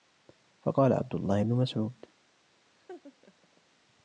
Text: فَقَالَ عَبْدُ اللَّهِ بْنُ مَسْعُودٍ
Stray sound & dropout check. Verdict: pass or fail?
fail